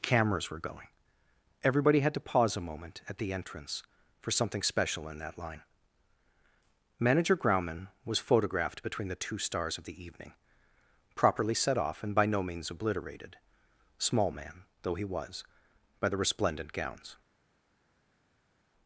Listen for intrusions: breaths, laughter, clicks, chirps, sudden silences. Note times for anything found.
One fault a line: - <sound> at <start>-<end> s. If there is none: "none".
none